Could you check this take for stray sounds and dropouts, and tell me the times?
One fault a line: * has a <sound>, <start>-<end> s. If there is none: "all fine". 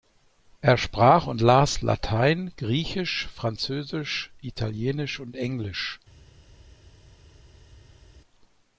all fine